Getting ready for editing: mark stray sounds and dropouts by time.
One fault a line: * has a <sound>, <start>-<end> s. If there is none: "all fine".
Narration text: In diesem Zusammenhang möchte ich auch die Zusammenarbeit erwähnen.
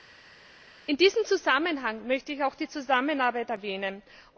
all fine